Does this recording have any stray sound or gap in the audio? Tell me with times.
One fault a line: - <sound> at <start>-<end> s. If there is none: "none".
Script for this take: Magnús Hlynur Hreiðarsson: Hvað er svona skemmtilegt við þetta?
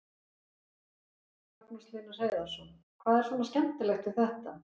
none